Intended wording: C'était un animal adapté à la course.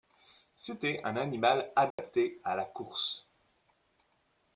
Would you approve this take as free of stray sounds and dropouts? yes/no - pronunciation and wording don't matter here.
no